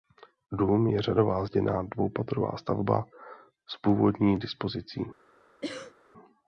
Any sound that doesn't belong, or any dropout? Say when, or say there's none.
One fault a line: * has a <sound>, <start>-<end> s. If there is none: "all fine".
* has a cough, 5.6-5.9 s